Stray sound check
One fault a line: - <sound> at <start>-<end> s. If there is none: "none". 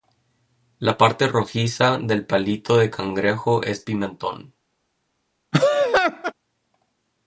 - laugh at 5.5-6.3 s